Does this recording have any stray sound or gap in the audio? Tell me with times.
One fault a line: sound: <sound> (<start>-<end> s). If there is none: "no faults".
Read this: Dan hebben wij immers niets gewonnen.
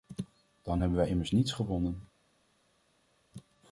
no faults